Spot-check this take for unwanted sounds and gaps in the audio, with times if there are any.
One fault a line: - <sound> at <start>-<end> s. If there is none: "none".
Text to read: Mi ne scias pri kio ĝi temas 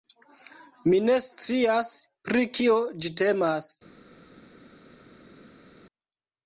none